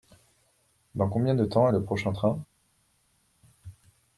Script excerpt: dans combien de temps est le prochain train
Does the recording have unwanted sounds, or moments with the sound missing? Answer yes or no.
no